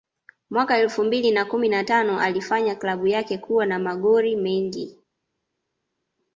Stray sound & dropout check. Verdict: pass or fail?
pass